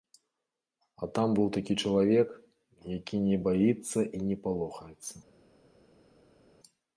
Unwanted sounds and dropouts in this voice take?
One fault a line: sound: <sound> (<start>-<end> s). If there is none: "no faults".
no faults